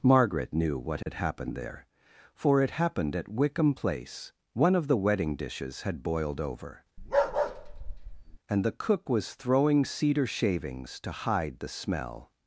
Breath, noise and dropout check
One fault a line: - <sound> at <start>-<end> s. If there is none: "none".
- dropout at 1.0-1.1 s
- bark at 7.0-8.4 s